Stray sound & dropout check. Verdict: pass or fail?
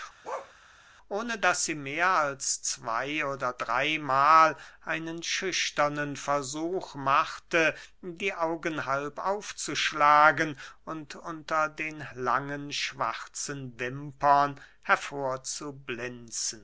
fail